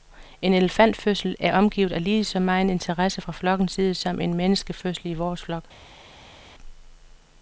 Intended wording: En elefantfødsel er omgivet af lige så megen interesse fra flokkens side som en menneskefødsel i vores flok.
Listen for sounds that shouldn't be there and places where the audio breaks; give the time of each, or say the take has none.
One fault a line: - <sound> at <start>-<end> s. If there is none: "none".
none